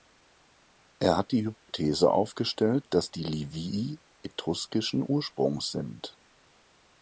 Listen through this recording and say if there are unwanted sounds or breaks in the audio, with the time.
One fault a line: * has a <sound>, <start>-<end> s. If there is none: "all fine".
* has a dropout, 1.5-1.7 s